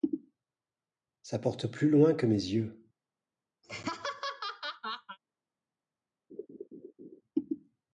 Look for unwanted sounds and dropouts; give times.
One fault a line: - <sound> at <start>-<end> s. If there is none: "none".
- laugh at 3.6-5.2 s
- laugh at 6.3-7.2 s